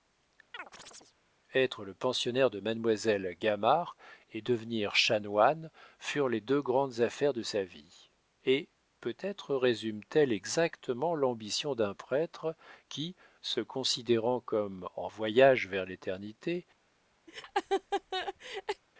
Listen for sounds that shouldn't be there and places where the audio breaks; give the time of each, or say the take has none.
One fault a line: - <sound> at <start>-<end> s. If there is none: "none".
- chirp at 0.5-1.1 s
- laugh at 17.3-18.8 s